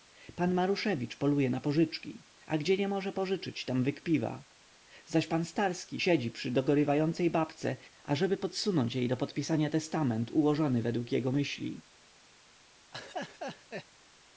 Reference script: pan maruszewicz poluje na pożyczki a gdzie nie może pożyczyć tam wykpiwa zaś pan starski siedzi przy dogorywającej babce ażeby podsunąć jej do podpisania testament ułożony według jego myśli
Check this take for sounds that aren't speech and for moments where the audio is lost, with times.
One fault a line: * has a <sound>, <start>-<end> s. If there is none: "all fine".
* has a laugh, 12.9-13.9 s